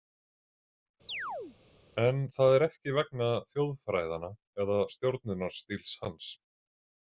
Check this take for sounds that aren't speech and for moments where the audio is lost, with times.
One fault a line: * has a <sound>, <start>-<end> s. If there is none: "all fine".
* has a chirp, 1.1-1.6 s